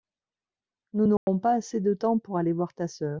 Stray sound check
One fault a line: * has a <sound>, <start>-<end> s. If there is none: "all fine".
* has a dropout, 1.2-1.3 s